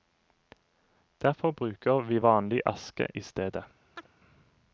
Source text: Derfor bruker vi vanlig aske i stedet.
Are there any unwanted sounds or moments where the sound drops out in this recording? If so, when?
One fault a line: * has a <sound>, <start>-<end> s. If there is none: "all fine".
* has a chirp, 4.0-4.1 s